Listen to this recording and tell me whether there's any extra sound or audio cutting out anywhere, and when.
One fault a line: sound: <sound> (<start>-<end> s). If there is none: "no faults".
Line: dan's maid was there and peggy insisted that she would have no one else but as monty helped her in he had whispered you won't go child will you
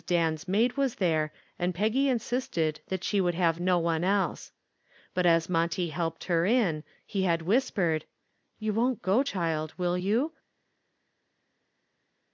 no faults